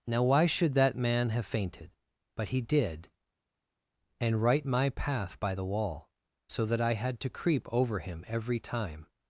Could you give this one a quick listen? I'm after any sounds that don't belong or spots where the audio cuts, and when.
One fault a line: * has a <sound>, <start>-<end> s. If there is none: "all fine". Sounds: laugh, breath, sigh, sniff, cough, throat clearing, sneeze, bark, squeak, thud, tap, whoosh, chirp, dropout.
all fine